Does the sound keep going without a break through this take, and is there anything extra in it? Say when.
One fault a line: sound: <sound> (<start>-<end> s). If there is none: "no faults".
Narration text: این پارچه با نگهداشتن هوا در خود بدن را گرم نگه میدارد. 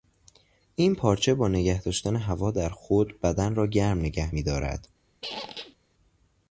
sound: squeak (5.2-5.8 s)